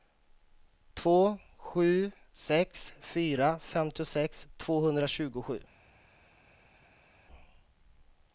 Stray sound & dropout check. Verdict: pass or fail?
pass